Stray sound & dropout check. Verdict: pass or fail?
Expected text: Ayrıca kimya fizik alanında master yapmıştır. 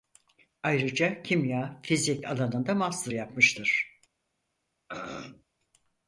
fail